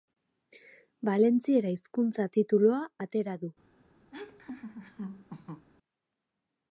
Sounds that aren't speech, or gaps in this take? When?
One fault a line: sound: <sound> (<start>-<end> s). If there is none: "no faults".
sound: laugh (4.1-5.7 s)